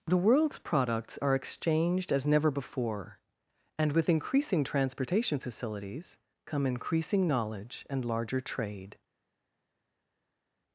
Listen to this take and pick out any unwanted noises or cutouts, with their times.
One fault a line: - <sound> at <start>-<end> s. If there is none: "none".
none